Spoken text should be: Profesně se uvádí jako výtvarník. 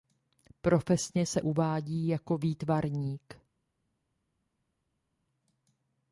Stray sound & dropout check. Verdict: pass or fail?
pass